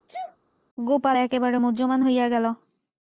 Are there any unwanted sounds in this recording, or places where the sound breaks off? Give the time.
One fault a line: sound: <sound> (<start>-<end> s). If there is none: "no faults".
sound: sneeze (0.1-0.4 s)